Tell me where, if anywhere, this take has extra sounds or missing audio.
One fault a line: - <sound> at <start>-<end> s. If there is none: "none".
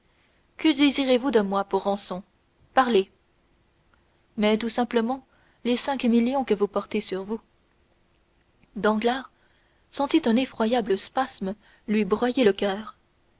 none